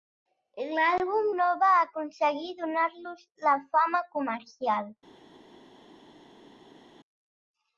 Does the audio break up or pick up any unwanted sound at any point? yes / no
no